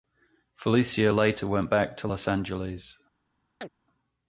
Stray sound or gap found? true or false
true